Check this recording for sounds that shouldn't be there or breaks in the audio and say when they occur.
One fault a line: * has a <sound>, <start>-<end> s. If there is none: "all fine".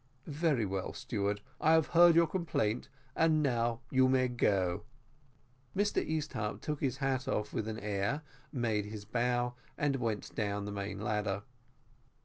all fine